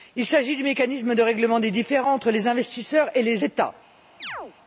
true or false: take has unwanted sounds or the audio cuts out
true